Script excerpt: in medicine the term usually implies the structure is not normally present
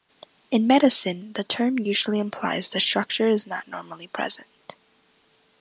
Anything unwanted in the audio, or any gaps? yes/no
no